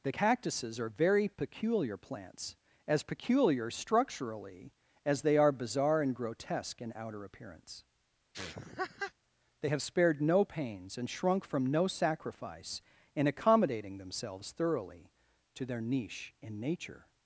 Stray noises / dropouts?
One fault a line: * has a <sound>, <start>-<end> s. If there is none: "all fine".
* has a laugh, 8.3-9.1 s